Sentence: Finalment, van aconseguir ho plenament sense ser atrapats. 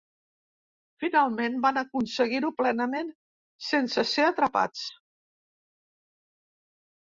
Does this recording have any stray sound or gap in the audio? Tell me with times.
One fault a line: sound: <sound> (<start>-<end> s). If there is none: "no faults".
no faults